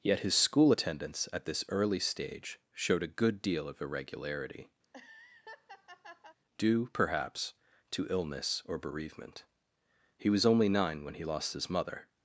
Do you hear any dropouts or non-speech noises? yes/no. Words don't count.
yes